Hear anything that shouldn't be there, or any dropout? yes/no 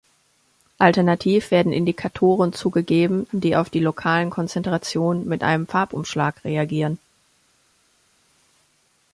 no